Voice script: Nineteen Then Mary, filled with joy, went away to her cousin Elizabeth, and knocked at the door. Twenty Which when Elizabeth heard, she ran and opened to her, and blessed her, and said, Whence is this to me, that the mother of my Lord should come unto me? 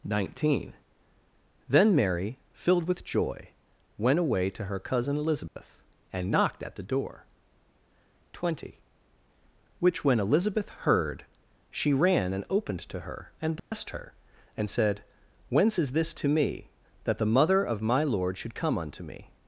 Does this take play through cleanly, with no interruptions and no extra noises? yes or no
no